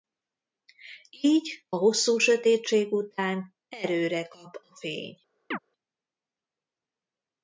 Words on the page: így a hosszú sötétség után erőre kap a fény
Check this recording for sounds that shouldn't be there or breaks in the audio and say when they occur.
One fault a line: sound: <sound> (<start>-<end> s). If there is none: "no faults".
sound: chirp (5.5-5.6 s)